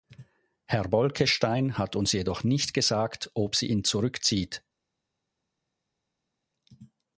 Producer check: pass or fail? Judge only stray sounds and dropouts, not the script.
pass